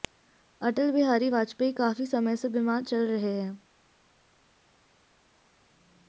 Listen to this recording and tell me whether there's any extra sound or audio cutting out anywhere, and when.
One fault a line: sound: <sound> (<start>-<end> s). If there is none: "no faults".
no faults